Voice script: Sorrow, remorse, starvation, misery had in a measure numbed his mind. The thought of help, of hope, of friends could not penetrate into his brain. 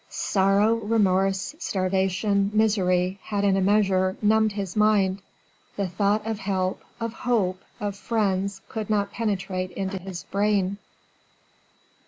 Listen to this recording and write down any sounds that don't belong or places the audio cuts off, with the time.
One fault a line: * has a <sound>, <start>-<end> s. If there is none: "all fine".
all fine